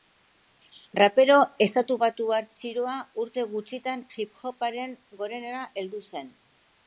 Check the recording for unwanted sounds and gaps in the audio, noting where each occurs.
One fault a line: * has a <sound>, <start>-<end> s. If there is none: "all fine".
all fine